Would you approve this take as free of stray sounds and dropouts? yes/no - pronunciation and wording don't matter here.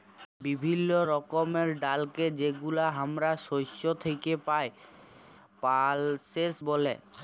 yes